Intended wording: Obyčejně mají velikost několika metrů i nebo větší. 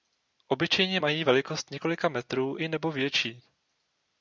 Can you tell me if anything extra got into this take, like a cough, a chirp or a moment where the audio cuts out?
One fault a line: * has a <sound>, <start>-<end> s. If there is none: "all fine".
all fine